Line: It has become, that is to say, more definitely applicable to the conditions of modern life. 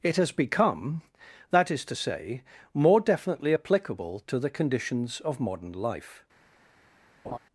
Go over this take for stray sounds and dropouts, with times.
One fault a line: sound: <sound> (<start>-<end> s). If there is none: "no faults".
sound: laugh (7.2-7.4 s)